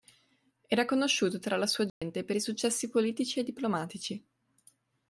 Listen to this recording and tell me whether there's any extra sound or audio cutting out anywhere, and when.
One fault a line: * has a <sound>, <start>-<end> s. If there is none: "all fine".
* has a dropout, 1.9-2.0 s